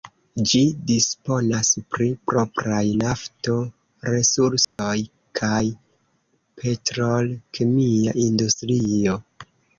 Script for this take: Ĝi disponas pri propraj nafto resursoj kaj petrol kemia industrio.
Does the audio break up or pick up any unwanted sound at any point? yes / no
yes